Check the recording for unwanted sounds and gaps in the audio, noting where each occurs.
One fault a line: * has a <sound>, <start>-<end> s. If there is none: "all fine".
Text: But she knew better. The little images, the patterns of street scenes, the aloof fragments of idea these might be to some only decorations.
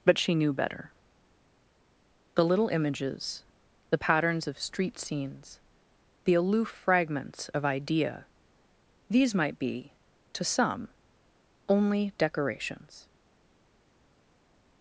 all fine